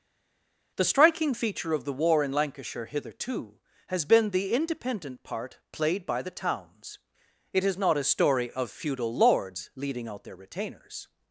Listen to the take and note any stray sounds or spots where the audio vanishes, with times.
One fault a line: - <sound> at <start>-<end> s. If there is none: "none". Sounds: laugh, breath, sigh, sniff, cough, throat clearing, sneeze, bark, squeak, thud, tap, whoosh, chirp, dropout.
none